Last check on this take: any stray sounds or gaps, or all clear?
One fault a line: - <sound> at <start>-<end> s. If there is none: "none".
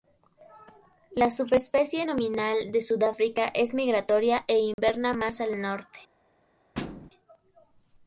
- dropout at 4.7-4.8 s
- thud at 6.7-7.1 s